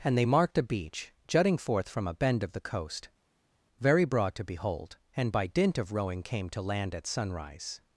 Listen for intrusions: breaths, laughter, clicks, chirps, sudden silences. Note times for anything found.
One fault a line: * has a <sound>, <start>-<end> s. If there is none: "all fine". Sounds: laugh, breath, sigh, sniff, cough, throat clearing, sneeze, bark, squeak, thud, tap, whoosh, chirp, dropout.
all fine